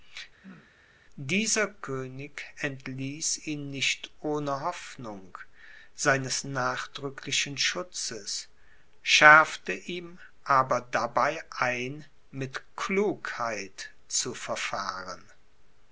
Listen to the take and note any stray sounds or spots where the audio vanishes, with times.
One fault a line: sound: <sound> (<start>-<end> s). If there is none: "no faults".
sound: throat clearing (0.4-0.7 s)